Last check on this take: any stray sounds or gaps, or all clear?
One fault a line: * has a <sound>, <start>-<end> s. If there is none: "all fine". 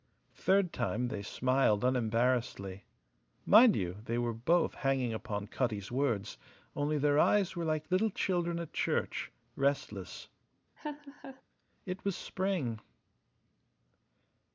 * has a laugh, 10.8-11.4 s